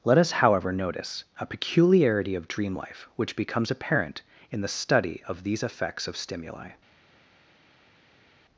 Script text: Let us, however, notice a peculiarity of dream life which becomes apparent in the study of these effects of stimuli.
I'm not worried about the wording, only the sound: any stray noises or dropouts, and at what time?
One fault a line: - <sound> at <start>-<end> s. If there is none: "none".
none